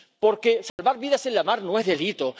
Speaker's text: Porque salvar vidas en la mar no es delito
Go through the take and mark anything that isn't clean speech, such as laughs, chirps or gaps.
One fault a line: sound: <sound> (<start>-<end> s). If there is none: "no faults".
sound: dropout (0.7-0.8 s)